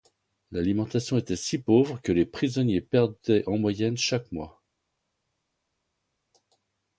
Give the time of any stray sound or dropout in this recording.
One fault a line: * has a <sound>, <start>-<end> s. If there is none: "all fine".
all fine